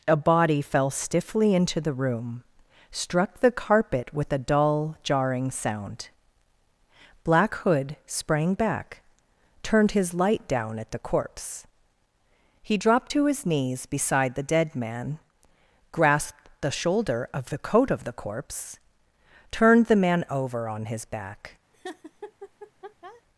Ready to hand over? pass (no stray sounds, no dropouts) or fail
fail